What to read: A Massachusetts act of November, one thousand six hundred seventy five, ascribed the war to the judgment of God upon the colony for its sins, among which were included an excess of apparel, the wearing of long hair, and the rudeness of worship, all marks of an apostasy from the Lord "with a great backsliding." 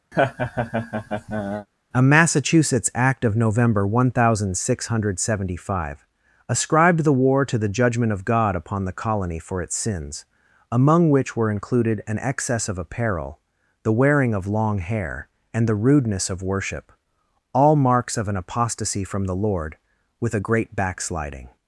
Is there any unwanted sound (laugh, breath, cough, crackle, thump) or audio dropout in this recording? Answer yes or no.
yes